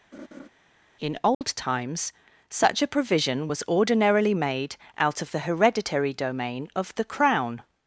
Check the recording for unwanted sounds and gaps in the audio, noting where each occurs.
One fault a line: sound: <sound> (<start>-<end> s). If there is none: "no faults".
sound: laugh (0.1-0.5 s)
sound: dropout (1.3-1.4 s)